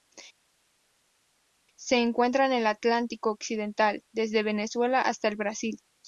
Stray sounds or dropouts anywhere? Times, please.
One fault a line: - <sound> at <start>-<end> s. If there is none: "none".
none